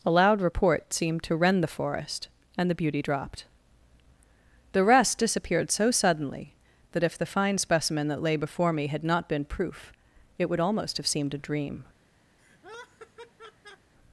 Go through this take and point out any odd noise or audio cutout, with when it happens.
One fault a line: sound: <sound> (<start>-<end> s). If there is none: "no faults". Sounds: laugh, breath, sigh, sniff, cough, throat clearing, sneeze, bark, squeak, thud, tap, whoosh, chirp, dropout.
sound: laugh (12.4-13.9 s)